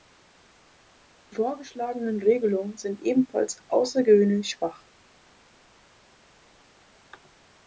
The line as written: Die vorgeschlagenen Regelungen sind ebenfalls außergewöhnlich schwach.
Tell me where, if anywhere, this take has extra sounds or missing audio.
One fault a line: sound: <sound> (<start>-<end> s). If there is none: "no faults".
no faults